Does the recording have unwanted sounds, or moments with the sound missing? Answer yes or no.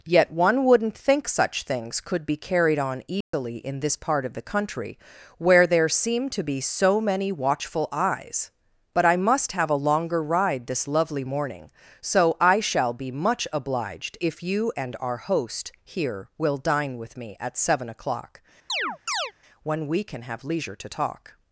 yes